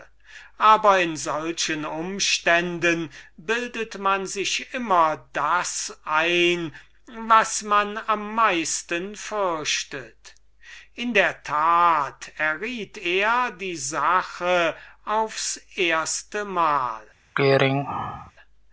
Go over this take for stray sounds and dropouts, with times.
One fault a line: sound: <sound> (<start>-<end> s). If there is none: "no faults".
sound: throat clearing (17.3-18.3 s)